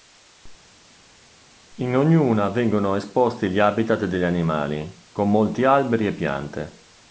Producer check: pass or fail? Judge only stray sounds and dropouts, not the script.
pass